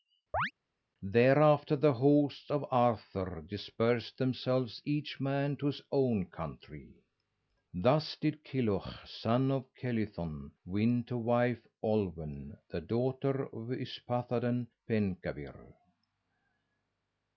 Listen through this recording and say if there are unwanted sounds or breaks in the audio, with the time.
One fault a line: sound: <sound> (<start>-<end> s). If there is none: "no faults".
sound: chirp (0.3-0.5 s)